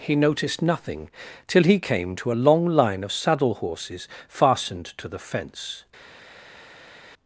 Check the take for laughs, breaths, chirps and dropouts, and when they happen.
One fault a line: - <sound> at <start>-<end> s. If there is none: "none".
none